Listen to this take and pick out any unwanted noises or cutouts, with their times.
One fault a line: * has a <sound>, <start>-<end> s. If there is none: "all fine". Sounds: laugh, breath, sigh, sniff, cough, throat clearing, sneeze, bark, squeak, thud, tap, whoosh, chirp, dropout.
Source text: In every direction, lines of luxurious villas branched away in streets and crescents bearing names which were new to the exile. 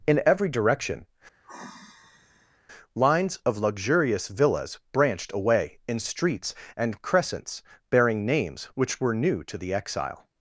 * has a sigh, 1.4-2.6 s